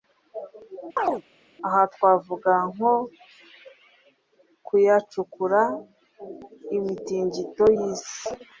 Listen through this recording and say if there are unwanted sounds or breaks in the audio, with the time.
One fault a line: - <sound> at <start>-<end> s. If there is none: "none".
- chirp at 1.0-1.2 s